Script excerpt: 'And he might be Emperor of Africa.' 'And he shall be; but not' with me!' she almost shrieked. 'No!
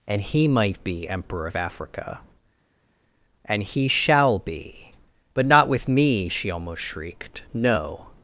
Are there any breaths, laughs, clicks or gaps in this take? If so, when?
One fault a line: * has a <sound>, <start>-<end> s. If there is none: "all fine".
all fine